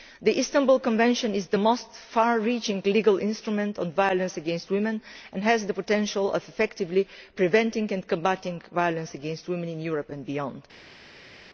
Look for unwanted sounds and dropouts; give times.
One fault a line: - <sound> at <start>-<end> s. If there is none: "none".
none